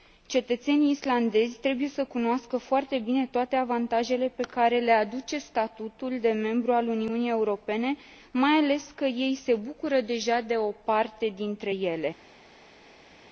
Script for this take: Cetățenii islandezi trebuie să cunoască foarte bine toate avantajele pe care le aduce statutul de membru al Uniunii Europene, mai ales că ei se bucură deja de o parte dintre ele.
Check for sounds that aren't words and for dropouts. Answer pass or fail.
pass